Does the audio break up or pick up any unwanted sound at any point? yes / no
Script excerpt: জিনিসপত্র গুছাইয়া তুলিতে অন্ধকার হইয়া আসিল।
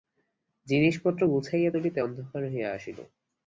no